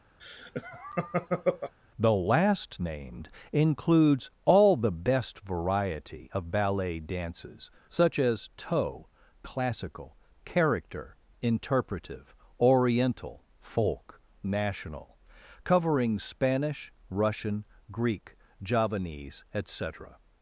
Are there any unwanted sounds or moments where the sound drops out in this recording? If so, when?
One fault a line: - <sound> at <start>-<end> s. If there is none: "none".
- laugh at 0.2-1.7 s